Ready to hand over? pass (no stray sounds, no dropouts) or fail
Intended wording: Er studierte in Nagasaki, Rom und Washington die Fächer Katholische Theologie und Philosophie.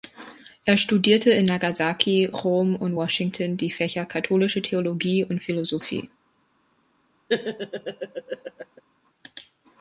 fail